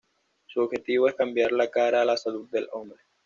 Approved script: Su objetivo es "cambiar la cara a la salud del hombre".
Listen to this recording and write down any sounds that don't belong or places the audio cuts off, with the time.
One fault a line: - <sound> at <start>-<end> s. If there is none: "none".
none